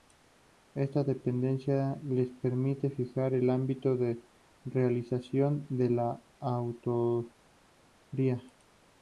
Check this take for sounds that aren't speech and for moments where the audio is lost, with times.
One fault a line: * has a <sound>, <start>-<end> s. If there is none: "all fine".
all fine